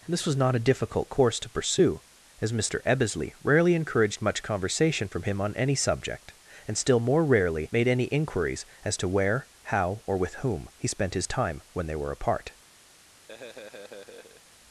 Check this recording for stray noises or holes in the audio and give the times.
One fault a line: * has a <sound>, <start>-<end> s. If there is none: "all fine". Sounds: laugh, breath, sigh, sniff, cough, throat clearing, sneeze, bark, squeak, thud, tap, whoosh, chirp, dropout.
* has a laugh, 13.3-14.4 s